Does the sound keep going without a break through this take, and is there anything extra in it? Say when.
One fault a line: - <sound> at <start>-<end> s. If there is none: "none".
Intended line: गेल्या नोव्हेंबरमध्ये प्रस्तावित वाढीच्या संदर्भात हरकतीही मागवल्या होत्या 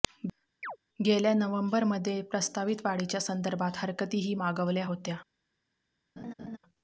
- chirp at 0.6-0.8 s
- laugh at 6.2-6.6 s